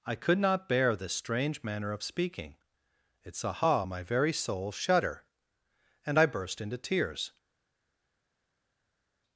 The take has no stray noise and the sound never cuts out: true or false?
true